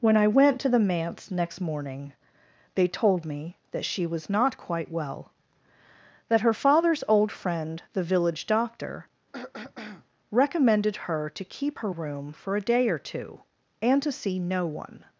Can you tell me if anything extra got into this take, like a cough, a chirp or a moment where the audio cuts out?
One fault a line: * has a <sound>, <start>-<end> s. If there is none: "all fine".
* has a throat clearing, 9.3-10.1 s